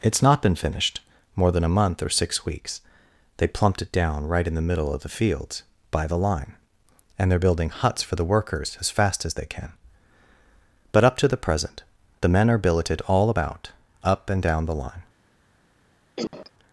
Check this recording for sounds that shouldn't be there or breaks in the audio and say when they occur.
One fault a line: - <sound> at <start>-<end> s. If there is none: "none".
- cough at 16.2-16.5 s